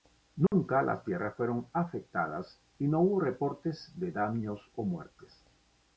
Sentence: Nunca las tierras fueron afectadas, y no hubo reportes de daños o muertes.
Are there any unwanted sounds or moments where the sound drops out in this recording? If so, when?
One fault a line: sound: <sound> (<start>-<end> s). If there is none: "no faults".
sound: dropout (0.5-0.5 s)